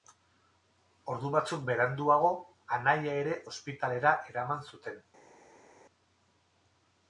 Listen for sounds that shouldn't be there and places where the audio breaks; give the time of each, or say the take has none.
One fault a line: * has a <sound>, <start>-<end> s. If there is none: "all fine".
all fine